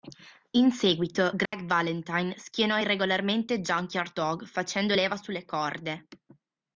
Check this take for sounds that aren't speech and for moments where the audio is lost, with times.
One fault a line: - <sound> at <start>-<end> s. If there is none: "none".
- dropout at 1.5-1.5 s